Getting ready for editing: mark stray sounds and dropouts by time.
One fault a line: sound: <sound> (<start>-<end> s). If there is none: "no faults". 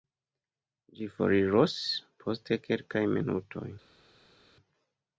no faults